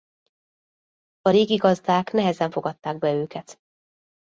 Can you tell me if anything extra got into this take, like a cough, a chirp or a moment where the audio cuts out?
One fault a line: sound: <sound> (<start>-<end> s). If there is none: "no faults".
no faults